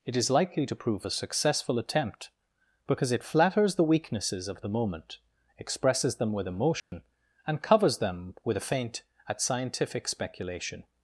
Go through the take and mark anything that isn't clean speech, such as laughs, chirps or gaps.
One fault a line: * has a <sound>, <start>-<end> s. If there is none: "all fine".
* has a dropout, 6.8-6.9 s